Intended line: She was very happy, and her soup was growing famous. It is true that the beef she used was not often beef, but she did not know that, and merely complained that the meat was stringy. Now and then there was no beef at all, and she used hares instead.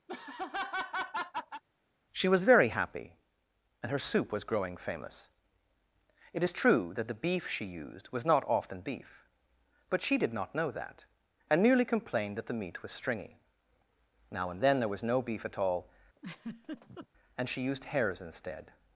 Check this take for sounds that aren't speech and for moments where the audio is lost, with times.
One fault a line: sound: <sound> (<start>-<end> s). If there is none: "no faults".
sound: laugh (0.1-1.6 s)
sound: laugh (16.2-17.1 s)